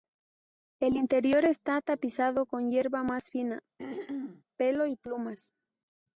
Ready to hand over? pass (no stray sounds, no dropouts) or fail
fail